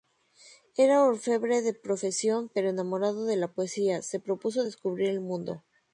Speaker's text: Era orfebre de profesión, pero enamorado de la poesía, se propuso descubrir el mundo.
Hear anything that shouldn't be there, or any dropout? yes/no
no